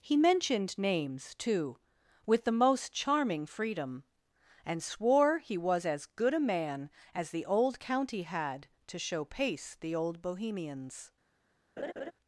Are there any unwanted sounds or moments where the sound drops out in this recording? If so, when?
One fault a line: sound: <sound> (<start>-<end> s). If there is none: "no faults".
sound: laugh (11.8-12.1 s)